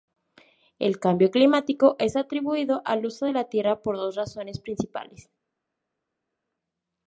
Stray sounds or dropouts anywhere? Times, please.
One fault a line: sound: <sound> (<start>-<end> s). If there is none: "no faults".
no faults